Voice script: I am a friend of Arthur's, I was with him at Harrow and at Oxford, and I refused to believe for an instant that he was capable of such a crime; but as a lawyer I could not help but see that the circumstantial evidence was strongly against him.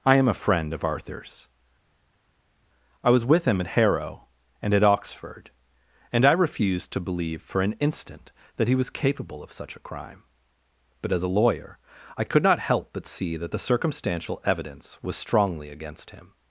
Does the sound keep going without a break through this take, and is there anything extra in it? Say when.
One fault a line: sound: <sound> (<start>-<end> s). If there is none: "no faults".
no faults